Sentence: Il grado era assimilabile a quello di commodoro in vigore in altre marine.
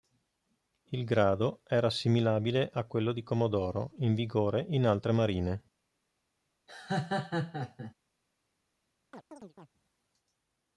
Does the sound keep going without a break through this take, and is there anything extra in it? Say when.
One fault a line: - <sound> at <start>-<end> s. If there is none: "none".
- laugh at 6.7-7.9 s
- chirp at 9.1-9.7 s